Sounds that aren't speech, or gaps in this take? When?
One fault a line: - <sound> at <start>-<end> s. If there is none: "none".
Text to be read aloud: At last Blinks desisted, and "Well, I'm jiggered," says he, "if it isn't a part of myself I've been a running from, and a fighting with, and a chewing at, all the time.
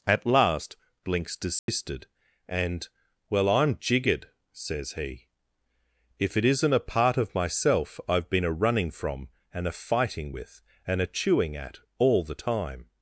- dropout at 1.6-1.7 s